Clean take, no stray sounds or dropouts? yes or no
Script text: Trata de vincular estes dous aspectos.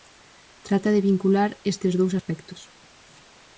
yes